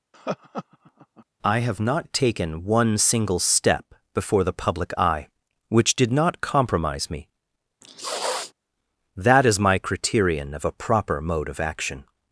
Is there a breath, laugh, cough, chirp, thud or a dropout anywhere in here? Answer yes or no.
yes